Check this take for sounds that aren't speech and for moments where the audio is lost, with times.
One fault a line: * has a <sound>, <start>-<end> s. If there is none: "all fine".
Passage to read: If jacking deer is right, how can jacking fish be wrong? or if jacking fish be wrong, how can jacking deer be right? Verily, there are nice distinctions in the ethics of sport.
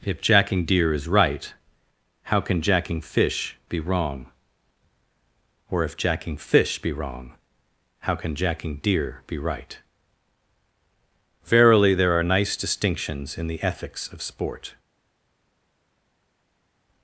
all fine